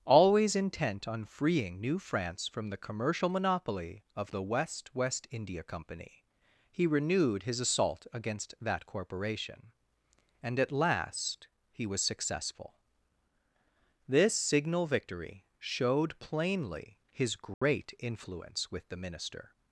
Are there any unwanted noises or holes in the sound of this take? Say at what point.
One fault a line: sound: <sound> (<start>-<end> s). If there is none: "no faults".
sound: dropout (17.5-17.6 s)